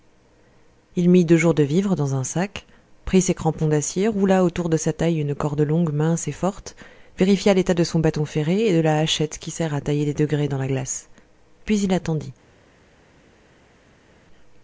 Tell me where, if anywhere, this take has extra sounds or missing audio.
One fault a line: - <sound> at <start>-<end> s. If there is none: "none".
none